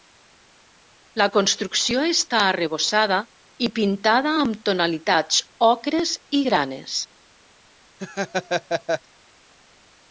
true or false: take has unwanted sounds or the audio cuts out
true